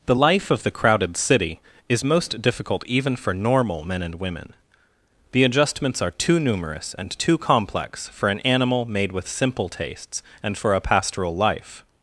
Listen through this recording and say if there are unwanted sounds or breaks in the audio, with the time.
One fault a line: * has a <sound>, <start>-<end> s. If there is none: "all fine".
all fine